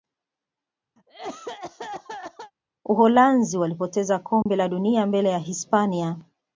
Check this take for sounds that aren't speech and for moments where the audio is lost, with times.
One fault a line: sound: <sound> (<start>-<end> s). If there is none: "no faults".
sound: cough (1.0-2.5 s)
sound: dropout (4.4-4.5 s)